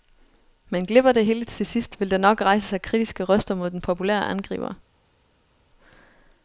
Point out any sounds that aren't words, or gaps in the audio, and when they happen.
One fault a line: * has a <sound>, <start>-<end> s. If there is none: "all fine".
all fine